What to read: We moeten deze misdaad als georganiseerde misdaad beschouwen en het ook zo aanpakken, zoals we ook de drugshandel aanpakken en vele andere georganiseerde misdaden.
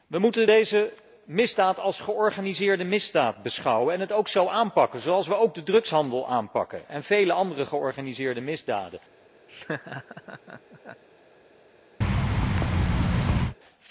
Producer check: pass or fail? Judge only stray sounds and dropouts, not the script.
fail